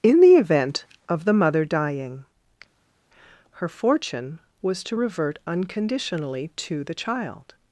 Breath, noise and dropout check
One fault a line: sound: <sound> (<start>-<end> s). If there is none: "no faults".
no faults